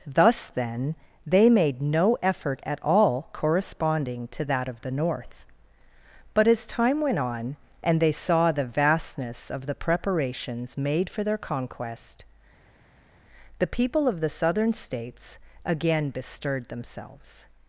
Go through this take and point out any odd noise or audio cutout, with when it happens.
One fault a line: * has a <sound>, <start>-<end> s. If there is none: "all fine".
all fine